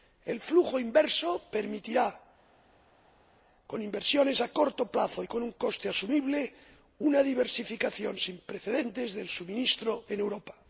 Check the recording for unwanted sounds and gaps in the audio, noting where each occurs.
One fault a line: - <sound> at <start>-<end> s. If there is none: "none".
none